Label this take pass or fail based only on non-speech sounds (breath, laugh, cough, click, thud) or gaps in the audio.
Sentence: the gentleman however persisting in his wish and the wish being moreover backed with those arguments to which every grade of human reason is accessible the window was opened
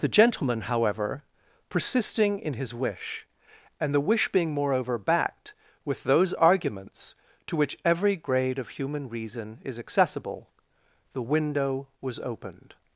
pass